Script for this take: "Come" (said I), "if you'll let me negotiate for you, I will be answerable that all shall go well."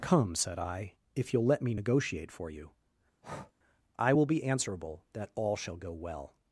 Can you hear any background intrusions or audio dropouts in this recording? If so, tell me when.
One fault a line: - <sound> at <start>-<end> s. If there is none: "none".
- breath at 3.2-3.5 s